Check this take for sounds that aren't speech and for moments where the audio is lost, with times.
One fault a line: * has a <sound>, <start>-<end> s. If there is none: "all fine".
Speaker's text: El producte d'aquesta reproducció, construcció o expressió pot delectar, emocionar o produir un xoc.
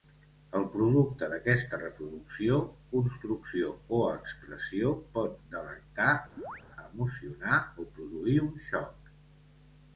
* has a chirp, 6.4-6.6 s